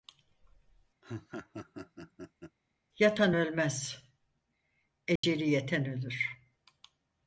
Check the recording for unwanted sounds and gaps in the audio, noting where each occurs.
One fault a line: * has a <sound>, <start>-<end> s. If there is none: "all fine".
* has a laugh, 1.0-2.6 s
* has a dropout, 5.2-5.2 s